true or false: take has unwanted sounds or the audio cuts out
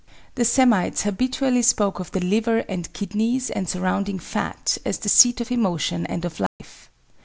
true